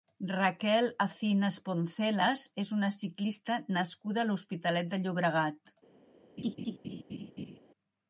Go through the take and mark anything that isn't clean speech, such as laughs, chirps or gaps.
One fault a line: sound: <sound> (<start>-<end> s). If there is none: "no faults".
sound: laugh (6.4-7.6 s)